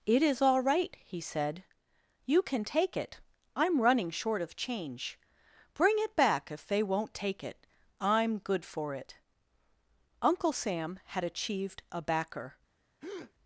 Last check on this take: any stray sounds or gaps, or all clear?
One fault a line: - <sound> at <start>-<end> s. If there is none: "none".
- breath at 13.0-13.3 s